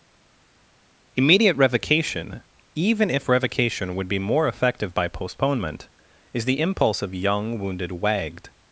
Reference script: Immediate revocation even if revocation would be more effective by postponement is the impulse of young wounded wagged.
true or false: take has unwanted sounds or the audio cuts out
false